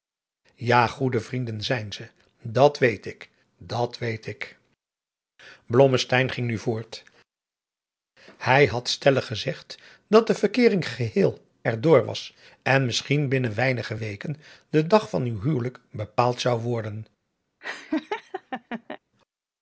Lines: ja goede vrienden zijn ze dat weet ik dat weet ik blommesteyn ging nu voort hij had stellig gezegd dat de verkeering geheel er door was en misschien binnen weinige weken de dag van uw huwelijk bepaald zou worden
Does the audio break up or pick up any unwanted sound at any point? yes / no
yes